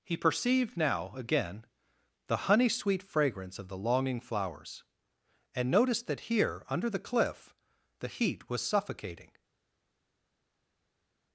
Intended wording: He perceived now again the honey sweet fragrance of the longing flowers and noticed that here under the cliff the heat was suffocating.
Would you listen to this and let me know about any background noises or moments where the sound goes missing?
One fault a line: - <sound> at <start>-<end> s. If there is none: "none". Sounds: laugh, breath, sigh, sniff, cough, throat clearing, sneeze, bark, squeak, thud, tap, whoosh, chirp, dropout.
none